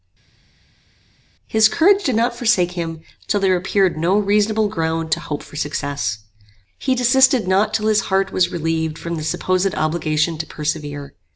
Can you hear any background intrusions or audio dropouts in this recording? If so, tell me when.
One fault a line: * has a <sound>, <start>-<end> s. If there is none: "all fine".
all fine